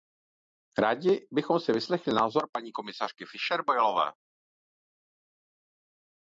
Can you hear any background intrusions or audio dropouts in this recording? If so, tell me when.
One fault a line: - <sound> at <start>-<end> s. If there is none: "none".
none